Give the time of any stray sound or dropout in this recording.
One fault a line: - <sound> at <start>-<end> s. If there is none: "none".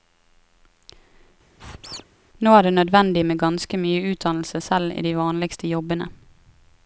- squeak at 1.6-2.0 s